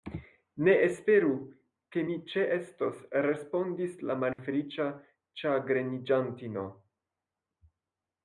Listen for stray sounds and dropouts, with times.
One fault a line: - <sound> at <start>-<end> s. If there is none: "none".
- dropout at 4.3-4.4 s